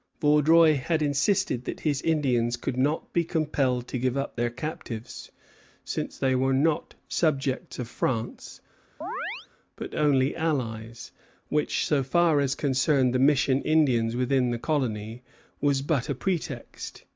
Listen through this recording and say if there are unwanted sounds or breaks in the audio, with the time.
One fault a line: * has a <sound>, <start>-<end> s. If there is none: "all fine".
* has a chirp, 9.0-9.5 s